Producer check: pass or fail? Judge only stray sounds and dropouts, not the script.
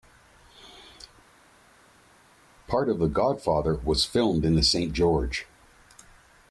pass